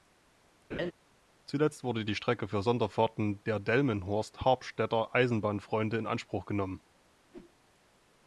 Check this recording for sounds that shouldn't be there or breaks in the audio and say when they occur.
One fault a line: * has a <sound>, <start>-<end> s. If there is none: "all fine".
* has a laugh, 0.7-0.9 s
* has a whoosh, 7.3-7.6 s